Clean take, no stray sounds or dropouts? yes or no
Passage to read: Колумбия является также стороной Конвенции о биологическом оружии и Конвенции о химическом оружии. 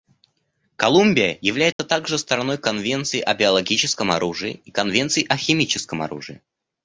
no